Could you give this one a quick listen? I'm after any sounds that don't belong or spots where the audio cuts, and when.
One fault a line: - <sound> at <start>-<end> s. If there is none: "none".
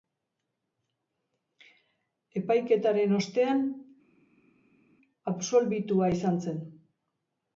none